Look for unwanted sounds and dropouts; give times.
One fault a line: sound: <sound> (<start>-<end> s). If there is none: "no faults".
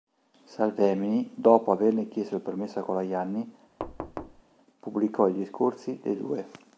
sound: thud (3.8-4.4 s)